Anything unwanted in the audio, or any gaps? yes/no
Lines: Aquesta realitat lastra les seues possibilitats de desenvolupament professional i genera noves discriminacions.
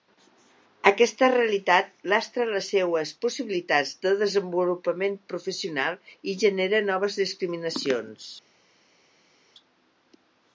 no